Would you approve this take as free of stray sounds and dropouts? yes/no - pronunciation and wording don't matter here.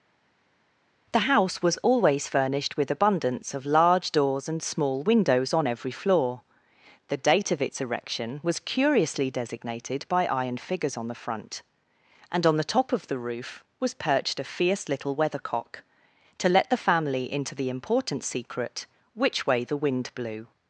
yes